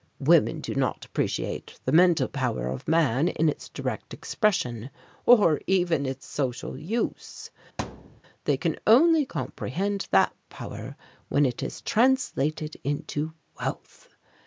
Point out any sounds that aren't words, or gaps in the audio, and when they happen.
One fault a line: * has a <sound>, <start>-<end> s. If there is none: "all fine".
* has a thud, 7.8-8.2 s